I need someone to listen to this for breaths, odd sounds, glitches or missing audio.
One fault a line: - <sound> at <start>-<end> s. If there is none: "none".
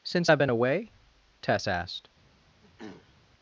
- throat clearing at 2.6-3.2 s